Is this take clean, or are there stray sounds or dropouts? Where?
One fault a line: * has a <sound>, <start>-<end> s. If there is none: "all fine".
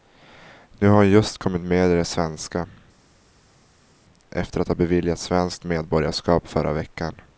all fine